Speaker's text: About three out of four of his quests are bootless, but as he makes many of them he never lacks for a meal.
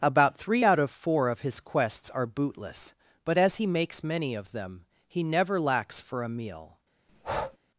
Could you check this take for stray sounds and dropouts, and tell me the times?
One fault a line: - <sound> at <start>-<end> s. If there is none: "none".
- breath at 7.1-7.6 s